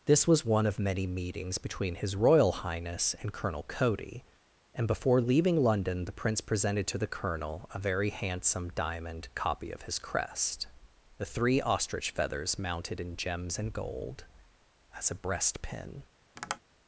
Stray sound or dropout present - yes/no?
yes